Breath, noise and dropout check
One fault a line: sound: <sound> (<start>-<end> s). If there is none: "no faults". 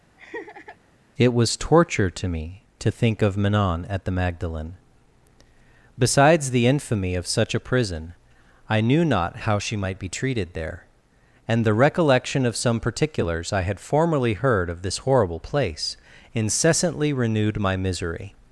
sound: laugh (0.2-0.8 s)